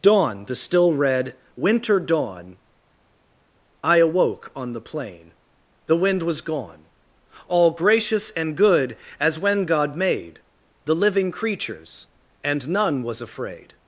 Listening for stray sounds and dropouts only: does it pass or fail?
pass